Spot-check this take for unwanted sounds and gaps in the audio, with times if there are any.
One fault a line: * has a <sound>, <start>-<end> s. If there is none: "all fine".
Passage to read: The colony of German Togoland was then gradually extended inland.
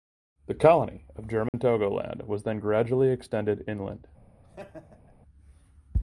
* has a dropout, 1.5-1.5 s
* has a laugh, 4.4-5.1 s